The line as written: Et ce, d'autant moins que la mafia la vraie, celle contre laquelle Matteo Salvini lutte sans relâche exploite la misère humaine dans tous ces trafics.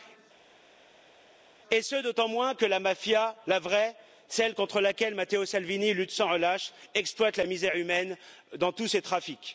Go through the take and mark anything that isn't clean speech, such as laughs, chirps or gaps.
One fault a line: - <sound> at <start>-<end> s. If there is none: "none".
none